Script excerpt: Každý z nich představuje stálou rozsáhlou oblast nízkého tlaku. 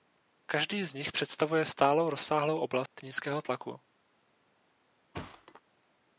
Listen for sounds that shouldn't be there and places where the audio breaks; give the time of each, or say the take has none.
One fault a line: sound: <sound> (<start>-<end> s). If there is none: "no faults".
sound: dropout (2.9-3.0 s)
sound: thud (5.1-5.6 s)